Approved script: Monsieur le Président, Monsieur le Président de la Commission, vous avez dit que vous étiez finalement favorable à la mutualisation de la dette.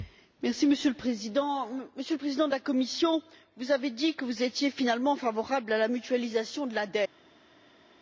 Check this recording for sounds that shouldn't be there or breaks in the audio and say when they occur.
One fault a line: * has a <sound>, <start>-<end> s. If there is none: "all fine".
all fine